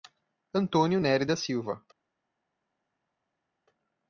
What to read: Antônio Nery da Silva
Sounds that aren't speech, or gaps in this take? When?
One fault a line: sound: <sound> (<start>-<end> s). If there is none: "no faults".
no faults